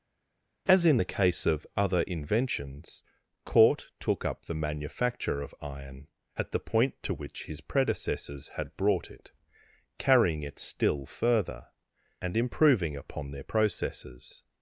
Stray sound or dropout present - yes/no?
no